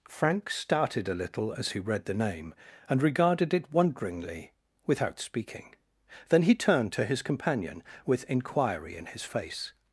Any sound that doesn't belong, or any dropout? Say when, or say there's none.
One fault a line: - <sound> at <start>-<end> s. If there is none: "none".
none